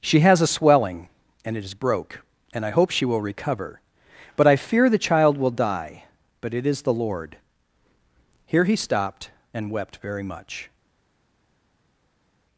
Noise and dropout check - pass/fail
pass